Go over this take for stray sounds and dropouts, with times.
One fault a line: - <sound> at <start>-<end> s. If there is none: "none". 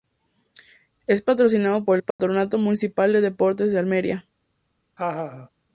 - dropout at 2.1-2.2 s
- laugh at 5.0-5.5 s